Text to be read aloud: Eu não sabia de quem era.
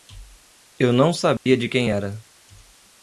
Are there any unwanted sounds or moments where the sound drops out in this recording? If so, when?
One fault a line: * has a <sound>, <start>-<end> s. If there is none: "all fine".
* has a dropout, 1.4-1.5 s